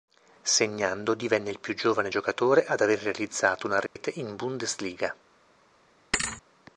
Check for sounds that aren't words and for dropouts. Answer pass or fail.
fail